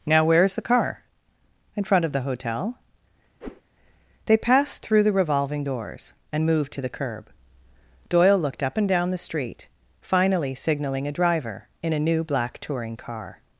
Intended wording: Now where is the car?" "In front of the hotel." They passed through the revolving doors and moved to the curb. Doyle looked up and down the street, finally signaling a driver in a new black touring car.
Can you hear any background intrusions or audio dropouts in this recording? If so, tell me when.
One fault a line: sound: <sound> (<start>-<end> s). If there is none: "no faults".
sound: whoosh (3.4-3.6 s)